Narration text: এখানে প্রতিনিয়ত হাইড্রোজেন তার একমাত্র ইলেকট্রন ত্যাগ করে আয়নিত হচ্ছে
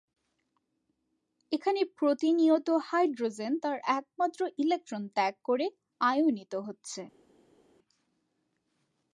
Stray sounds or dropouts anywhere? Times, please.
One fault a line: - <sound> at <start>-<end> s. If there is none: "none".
none